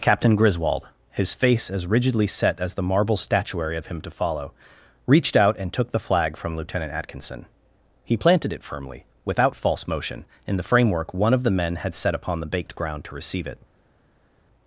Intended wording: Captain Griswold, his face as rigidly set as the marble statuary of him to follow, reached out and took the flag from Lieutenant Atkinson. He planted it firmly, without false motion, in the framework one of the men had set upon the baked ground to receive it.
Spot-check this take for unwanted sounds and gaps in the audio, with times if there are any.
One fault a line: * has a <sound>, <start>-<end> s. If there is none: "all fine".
all fine